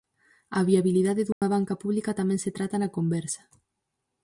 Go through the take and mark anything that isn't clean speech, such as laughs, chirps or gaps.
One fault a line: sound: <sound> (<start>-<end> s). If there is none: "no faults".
sound: dropout (1.3-1.4 s)